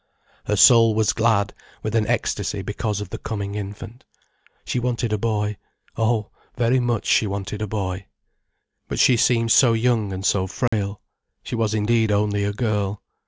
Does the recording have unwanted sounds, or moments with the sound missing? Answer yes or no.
yes